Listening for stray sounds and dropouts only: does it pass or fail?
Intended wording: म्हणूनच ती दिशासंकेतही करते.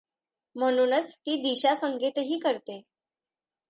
pass